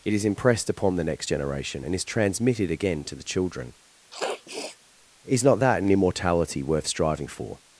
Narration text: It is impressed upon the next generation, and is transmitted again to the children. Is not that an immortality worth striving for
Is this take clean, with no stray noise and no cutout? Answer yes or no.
no